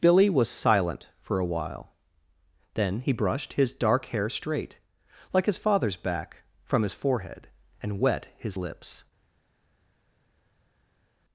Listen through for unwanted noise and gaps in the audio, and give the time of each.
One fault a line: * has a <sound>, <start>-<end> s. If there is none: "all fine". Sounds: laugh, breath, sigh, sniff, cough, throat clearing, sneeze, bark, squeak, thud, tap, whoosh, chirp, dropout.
all fine